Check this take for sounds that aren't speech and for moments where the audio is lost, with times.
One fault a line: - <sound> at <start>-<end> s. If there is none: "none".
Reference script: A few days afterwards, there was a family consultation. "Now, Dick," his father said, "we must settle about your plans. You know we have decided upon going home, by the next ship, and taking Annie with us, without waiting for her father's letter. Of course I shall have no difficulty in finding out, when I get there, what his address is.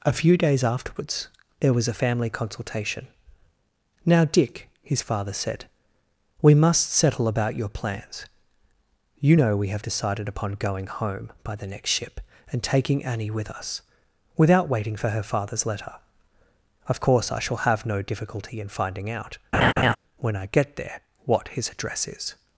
- laugh at 19.5-20.0 s